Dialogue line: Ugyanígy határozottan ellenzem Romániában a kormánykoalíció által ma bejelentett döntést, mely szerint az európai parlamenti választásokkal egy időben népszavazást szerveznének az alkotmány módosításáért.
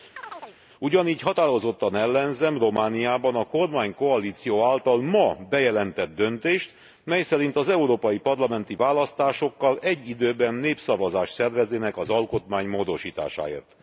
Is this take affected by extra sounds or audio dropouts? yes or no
yes